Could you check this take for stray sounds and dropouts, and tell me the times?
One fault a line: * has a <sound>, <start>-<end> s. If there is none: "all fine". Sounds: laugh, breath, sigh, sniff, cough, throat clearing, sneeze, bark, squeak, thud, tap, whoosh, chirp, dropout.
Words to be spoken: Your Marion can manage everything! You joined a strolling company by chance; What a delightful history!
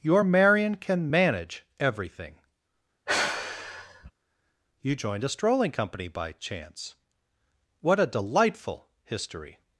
* has a sigh, 3.1-4.1 s